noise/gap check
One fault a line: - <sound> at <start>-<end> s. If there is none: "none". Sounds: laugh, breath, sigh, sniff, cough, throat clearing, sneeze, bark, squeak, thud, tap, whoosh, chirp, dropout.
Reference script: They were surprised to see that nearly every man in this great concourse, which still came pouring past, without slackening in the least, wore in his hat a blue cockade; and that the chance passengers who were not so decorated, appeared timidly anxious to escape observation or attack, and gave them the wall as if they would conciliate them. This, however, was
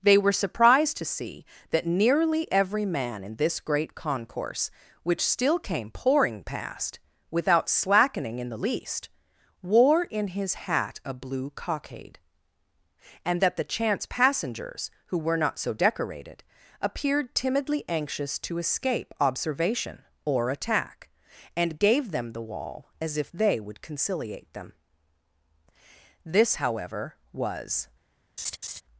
- laugh at 28.4-28.8 s